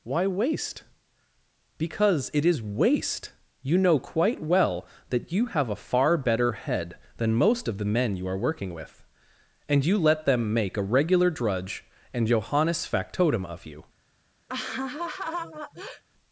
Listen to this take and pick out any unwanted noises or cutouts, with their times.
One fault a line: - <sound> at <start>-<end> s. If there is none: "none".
- laugh at 14.5-16.0 s